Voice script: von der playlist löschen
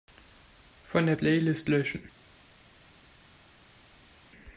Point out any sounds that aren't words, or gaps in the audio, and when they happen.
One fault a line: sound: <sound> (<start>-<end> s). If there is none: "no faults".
no faults